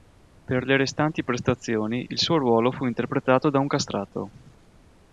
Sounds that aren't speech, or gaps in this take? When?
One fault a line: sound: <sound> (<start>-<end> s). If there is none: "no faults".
no faults